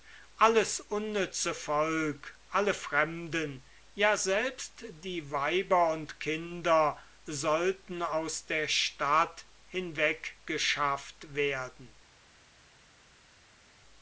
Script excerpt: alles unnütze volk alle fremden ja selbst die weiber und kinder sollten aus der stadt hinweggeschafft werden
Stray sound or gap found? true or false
false